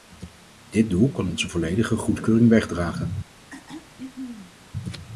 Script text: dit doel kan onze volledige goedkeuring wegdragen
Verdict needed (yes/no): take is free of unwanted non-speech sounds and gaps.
no